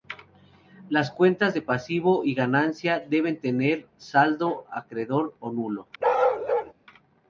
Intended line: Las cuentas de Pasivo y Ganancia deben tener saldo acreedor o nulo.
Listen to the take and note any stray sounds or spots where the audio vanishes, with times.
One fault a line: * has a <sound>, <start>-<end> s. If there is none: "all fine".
* has a bark, 6.0-6.7 s